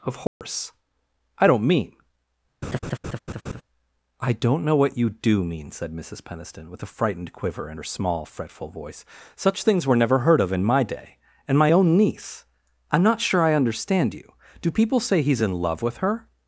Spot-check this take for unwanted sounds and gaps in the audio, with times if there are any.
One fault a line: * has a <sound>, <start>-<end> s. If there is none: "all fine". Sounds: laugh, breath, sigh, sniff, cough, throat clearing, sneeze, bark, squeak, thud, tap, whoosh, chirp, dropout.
* has a dropout, 0.3-0.4 s
* has a laugh, 2.6-3.6 s